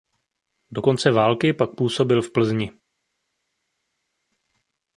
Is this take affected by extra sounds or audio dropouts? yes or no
no